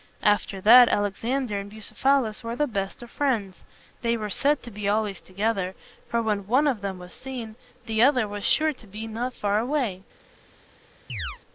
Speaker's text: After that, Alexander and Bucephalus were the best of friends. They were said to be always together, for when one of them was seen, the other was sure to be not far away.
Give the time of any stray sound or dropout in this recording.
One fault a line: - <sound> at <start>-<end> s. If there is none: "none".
- chirp at 11.1-11.4 s